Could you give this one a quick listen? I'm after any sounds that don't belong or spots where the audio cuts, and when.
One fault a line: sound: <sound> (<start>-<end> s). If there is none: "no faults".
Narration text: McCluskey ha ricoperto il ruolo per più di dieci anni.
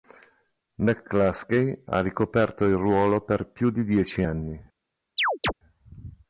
sound: chirp (5.2-5.5 s)